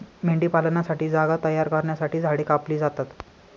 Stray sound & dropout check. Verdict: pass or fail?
pass